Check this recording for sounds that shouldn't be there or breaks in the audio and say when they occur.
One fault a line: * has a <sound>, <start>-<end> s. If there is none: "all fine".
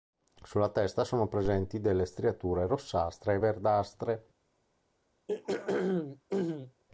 * has a throat clearing, 5.3-6.8 s